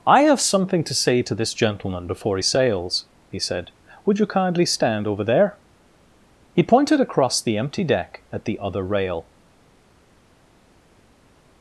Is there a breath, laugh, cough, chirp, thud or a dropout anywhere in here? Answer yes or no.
no